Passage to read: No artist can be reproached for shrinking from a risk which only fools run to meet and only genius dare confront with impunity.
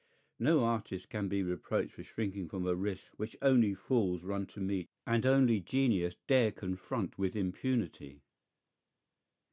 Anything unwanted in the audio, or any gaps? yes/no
no